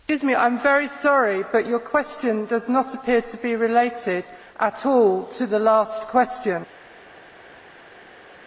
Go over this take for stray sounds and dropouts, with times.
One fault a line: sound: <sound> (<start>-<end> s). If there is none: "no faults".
no faults